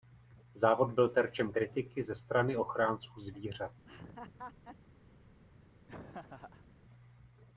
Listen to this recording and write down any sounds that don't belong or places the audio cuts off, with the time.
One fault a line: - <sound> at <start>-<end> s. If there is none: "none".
- laugh at 3.9-4.8 s
- laugh at 5.9-6.7 s